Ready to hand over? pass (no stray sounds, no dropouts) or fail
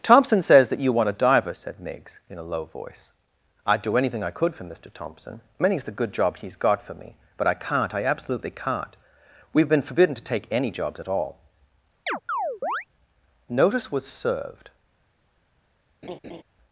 fail